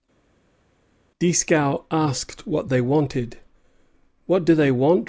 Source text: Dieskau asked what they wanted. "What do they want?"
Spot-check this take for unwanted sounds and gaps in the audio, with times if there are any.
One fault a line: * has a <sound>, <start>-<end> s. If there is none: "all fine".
all fine